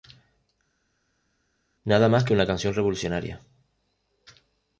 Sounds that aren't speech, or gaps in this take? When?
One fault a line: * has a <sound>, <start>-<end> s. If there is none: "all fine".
all fine